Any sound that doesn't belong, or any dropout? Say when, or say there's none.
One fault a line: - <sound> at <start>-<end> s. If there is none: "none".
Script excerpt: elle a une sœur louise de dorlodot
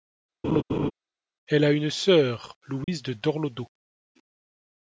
- laugh at 0.4-0.9 s
- dropout at 2.8-2.9 s